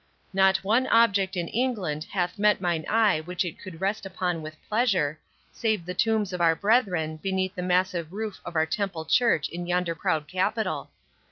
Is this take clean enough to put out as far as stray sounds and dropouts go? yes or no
yes